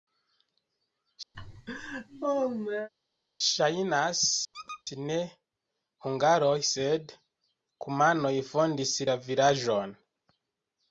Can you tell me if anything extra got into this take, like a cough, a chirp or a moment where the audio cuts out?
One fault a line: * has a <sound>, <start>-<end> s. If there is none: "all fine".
* has a laugh, 1.3-2.9 s
* has a squeak, 4.5-4.8 s